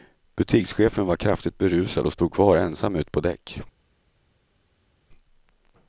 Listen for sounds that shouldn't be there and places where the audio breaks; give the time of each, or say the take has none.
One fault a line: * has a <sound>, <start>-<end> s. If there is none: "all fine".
all fine